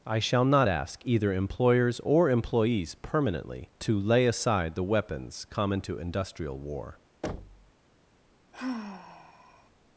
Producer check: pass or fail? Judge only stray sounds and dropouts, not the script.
fail